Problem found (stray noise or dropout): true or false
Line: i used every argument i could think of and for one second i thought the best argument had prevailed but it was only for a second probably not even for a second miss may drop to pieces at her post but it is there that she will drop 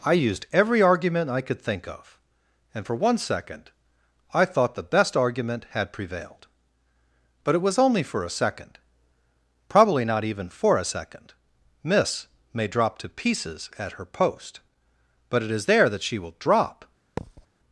true